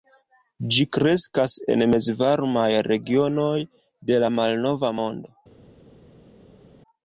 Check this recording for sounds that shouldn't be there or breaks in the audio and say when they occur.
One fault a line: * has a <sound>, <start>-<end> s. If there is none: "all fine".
all fine